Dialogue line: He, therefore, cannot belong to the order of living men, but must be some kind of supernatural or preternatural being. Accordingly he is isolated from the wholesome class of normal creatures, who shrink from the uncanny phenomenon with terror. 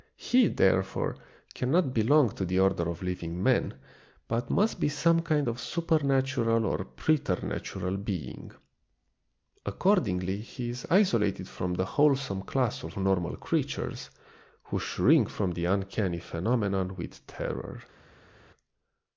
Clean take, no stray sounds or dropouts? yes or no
yes